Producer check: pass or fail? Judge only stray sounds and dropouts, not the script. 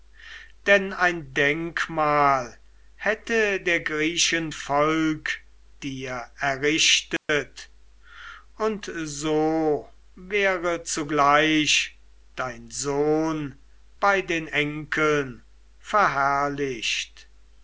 fail